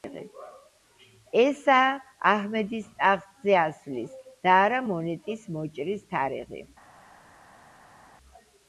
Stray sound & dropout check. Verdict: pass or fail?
pass